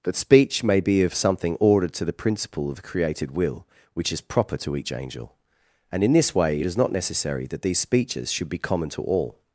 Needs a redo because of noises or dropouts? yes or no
no